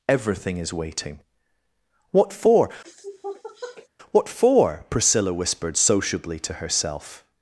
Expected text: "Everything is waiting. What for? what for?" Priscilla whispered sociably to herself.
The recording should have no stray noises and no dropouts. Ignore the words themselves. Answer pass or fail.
fail